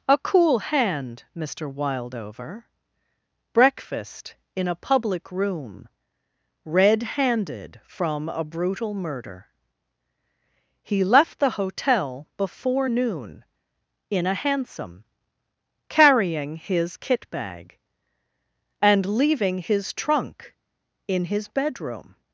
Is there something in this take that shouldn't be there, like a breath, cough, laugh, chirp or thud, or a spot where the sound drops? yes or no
no